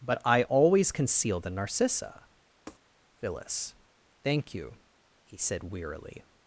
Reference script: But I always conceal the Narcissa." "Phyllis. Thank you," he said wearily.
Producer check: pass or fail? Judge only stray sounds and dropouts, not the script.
fail